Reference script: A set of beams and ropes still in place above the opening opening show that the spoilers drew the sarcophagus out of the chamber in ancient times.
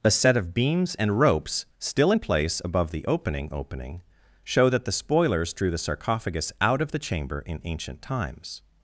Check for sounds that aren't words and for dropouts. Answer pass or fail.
pass